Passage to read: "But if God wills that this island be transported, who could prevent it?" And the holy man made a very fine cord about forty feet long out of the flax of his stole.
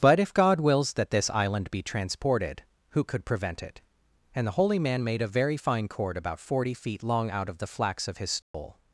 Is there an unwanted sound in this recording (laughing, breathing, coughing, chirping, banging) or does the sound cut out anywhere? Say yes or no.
yes